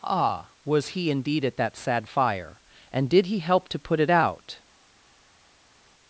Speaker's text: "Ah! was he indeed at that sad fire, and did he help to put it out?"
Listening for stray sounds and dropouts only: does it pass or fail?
pass